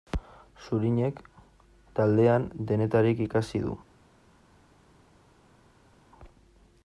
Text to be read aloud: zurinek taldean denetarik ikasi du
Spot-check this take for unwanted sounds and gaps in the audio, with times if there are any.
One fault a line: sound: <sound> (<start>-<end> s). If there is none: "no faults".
no faults